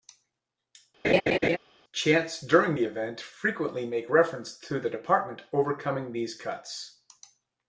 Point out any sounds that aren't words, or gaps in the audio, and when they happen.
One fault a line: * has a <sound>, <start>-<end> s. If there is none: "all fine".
* has a laugh, 1.0-1.6 s